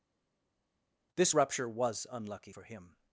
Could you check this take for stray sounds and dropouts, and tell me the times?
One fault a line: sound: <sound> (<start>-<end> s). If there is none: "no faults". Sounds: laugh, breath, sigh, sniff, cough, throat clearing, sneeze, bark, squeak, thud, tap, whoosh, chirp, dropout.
no faults